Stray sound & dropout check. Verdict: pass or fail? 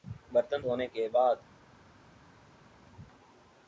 pass